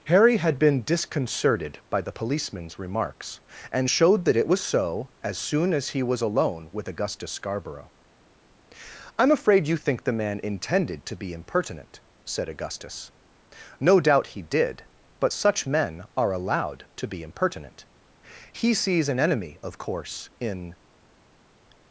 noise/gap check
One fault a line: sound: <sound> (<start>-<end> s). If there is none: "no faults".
no faults